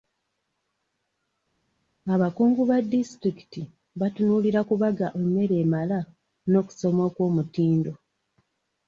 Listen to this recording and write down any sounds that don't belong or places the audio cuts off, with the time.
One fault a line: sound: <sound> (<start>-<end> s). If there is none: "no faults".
no faults